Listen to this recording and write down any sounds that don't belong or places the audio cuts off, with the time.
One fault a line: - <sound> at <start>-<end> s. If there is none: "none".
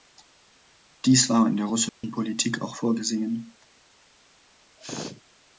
- dropout at 1.9-2.0 s
- sneeze at 4.8-5.2 s